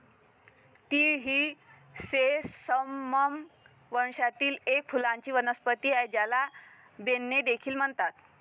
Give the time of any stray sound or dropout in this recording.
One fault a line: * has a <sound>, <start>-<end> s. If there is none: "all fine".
all fine